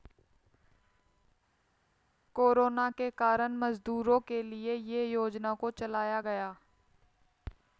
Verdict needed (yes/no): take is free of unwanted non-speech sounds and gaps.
yes